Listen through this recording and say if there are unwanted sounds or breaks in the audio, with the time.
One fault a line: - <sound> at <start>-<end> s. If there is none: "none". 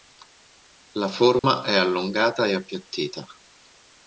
- dropout at 1.4-1.4 s